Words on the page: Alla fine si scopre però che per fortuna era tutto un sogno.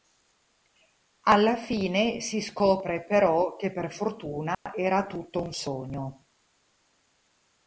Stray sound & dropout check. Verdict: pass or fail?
fail